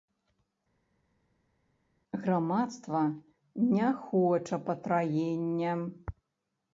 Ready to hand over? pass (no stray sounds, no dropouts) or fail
pass